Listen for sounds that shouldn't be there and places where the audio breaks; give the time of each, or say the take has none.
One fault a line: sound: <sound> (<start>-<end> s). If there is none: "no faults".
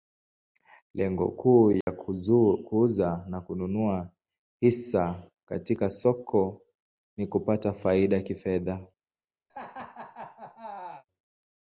sound: dropout (1.8-1.9 s)
sound: laugh (9.5-11.0 s)